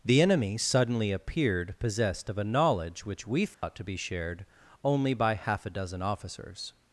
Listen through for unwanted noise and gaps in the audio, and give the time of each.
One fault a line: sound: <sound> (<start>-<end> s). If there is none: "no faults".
sound: dropout (3.5-3.6 s)